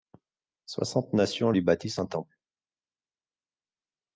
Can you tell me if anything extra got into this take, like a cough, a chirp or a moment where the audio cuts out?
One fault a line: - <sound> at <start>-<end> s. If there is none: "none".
none